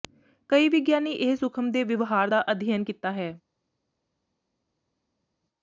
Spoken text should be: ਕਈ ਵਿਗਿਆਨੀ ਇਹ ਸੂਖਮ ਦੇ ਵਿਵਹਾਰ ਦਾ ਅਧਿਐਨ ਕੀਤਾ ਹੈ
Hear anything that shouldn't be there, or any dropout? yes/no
no